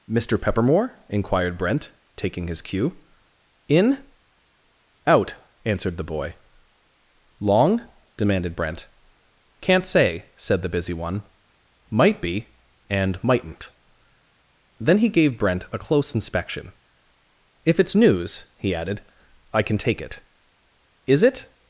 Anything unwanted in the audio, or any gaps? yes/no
no